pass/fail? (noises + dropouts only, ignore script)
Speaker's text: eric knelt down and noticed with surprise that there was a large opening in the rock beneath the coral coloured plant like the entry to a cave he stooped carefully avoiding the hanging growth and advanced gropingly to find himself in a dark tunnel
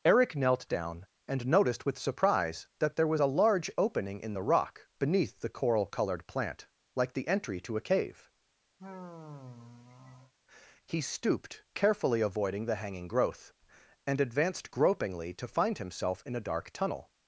fail